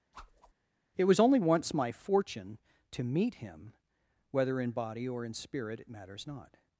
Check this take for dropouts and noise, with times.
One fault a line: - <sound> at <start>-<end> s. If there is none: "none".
- whoosh at 0.1-0.5 s